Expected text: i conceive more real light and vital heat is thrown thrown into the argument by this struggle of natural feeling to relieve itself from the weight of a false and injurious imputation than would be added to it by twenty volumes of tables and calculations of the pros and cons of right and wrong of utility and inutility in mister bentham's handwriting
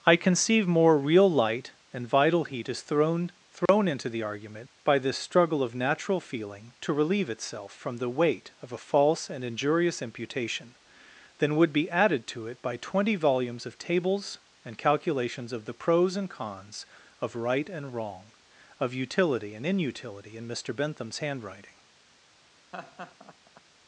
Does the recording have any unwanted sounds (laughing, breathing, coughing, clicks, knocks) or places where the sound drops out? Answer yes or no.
yes